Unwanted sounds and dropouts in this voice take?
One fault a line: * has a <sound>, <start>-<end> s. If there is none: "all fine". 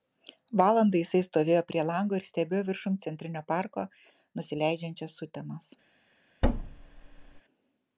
* has a thud, 6.4-7.4 s